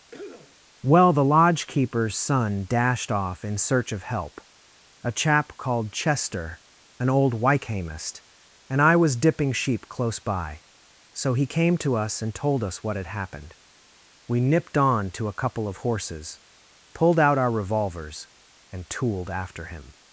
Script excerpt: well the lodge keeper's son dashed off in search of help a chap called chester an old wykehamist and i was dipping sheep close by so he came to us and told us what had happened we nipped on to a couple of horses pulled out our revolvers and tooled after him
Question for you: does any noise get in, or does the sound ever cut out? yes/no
yes